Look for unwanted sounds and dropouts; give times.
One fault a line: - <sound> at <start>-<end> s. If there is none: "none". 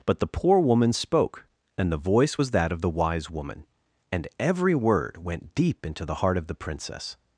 none